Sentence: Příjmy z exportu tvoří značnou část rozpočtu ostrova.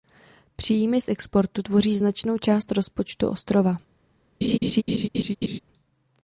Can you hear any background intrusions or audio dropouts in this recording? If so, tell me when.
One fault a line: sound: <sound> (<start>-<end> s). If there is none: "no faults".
sound: laugh (4.4-5.6 s)